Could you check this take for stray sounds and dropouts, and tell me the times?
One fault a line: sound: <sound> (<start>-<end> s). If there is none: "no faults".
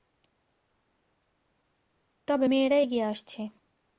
no faults